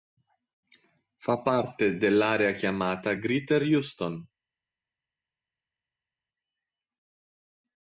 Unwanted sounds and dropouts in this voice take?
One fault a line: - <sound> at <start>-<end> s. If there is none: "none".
none